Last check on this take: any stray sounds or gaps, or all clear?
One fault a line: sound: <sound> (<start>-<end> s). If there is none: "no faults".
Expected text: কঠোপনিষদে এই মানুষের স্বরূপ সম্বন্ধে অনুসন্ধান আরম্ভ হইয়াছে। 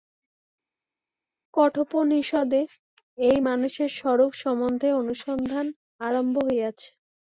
no faults